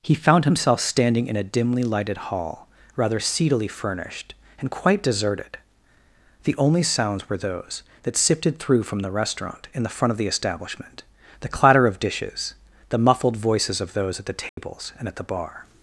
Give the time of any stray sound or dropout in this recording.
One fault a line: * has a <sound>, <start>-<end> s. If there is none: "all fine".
* has a dropout, 14.5-14.6 s